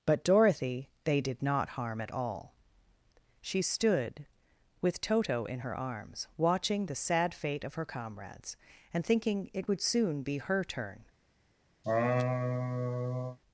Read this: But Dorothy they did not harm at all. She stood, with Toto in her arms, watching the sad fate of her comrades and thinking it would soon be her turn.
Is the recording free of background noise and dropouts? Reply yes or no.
no